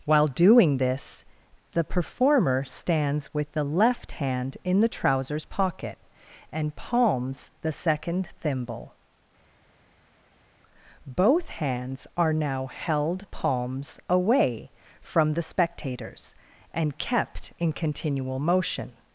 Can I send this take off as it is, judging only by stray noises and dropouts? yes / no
yes